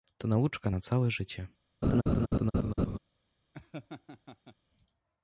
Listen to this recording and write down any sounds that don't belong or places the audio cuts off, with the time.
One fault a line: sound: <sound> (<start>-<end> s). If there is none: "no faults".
sound: laugh (1.8-3.0 s)
sound: laugh (3.5-4.6 s)